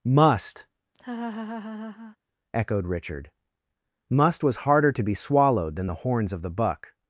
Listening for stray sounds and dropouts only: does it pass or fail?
fail